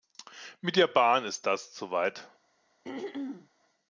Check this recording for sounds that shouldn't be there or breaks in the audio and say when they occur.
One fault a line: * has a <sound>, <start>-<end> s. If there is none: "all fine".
* has a throat clearing, 2.8-3.5 s